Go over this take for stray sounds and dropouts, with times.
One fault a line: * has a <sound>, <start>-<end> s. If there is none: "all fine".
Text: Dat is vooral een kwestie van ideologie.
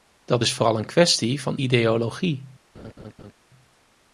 * has a laugh, 2.7-3.3 s